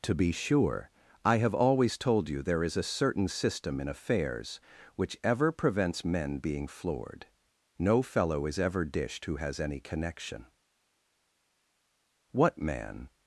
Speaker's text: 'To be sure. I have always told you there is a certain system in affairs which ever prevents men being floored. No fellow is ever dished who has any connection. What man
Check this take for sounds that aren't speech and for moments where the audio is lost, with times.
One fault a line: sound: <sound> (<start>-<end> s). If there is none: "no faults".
no faults